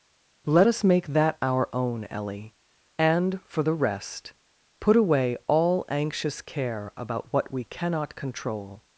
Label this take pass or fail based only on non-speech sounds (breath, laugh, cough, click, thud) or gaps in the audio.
pass